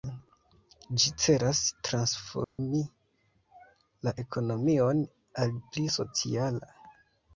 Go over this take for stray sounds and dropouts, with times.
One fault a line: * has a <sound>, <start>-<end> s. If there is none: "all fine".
* has a dropout, 2.4-2.6 s